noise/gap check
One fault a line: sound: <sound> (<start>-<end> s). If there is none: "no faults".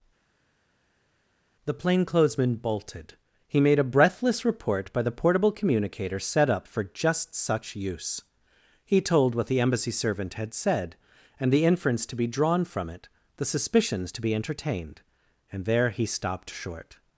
no faults